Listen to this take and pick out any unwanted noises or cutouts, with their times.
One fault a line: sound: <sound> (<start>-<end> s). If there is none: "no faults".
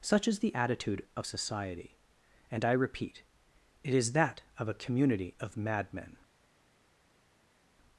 no faults